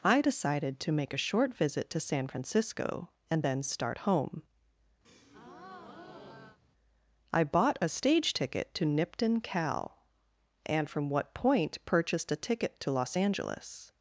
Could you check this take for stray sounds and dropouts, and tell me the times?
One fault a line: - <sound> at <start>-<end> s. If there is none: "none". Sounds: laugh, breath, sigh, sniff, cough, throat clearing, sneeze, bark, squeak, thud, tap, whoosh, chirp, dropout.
- breath at 5.0-6.6 s